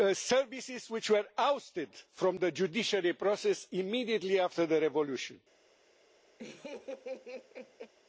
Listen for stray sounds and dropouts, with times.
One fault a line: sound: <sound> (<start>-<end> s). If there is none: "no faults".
sound: laugh (6.4-7.9 s)